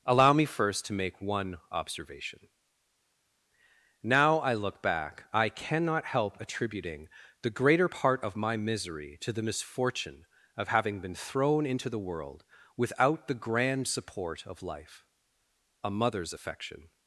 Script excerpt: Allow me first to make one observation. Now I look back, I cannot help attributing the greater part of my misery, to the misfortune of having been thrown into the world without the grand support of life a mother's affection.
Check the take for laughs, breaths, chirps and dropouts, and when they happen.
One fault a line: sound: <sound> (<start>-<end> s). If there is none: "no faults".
no faults